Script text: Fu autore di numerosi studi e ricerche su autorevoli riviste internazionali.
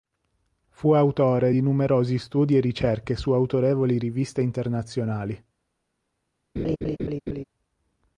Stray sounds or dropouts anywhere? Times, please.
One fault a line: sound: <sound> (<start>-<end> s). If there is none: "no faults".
sound: laugh (6.6-7.4 s)